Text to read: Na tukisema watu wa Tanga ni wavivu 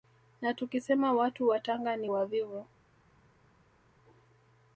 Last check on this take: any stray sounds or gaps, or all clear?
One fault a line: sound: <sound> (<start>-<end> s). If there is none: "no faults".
no faults